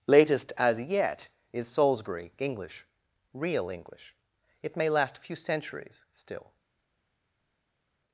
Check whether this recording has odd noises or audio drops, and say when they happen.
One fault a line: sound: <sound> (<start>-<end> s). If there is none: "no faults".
no faults